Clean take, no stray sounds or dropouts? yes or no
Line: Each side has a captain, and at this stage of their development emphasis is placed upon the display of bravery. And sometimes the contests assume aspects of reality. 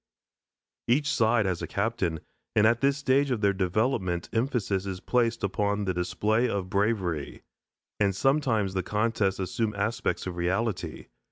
yes